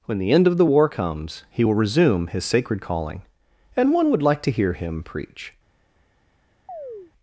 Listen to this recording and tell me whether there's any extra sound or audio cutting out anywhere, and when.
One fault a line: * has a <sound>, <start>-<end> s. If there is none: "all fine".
* has a chirp, 6.7-7.1 s